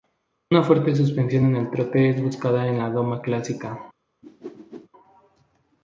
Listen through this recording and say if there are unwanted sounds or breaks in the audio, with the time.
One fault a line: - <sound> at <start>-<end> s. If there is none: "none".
- whoosh at 4.2-4.9 s